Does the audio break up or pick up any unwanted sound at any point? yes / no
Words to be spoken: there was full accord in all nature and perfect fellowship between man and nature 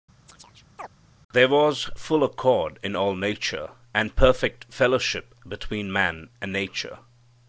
yes